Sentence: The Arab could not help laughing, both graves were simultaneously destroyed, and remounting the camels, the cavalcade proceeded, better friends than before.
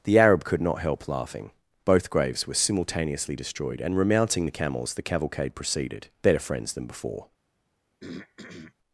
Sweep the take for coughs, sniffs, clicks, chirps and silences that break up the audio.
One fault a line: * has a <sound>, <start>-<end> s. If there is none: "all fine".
* has a throat clearing, 8.0-8.7 s